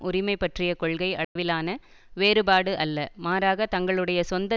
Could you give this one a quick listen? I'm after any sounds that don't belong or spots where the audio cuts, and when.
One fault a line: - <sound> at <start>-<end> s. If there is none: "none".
- dropout at 1.2-1.4 s